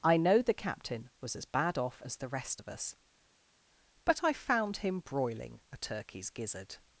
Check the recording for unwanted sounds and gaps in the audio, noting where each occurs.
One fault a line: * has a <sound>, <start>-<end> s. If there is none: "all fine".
all fine